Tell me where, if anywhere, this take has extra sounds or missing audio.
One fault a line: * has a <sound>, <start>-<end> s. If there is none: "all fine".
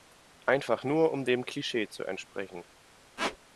* has a squeak, 3.2-3.4 s